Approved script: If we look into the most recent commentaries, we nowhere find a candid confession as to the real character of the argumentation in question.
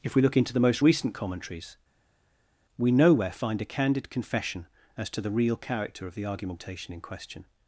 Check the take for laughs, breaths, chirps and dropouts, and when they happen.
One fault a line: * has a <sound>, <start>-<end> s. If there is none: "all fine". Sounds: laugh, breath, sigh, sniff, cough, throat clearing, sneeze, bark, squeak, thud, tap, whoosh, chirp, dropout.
all fine